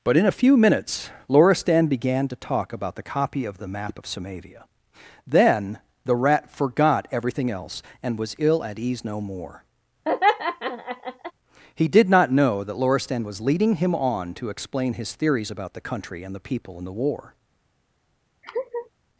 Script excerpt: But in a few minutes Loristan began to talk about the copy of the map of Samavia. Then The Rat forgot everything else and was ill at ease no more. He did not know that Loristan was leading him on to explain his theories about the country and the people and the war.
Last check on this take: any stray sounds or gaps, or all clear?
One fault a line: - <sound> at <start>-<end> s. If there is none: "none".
- laugh at 10.0-11.3 s
- laugh at 18.4-18.9 s